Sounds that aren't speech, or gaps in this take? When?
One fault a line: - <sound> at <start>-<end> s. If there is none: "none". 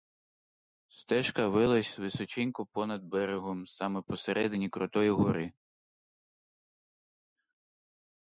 none